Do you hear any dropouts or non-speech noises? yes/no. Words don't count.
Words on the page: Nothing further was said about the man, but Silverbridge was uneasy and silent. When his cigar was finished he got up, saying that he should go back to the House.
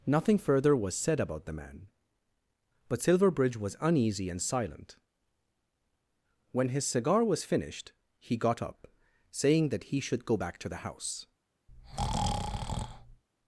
yes